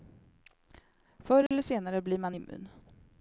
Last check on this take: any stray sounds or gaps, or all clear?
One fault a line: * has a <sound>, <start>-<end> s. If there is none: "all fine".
* has a dropout, 1.5-1.5 s